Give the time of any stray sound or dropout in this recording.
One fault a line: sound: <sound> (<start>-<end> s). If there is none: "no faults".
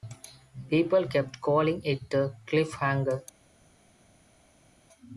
no faults